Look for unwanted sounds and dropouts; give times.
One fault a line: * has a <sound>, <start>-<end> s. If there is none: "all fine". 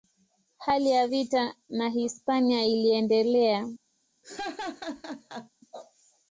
* has a laugh, 4.2-5.5 s